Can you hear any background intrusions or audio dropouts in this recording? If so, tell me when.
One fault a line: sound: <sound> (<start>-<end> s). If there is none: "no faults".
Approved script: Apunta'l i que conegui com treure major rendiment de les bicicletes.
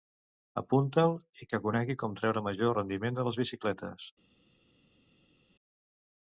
no faults